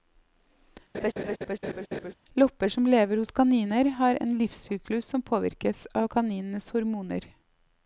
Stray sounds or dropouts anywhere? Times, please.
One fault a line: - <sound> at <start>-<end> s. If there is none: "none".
- laugh at 0.9-2.1 s